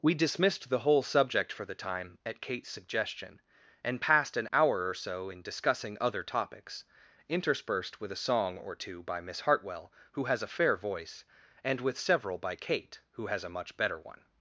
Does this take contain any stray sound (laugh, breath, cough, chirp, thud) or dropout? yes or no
no